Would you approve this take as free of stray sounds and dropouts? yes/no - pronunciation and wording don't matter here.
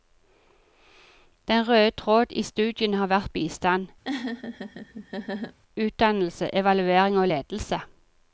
no